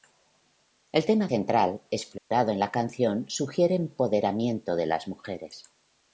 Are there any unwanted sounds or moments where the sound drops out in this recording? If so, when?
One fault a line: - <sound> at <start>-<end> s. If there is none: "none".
- dropout at 2.2-2.3 s